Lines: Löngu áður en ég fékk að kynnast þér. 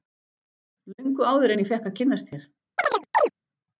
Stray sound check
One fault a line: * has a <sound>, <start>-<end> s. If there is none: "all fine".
* has a chirp, 2.8-3.3 s